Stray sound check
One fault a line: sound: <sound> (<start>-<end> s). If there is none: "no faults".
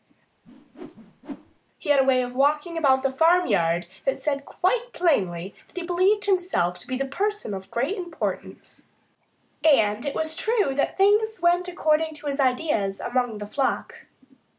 sound: whoosh (0.4-1.6 s)